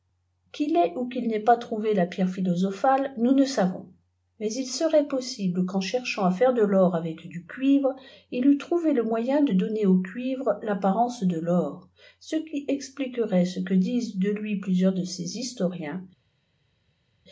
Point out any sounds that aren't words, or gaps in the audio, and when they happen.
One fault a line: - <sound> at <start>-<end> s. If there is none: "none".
none